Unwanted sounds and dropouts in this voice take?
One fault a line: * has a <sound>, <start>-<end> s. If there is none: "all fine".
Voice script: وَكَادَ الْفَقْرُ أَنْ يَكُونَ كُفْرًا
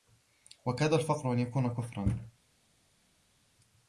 all fine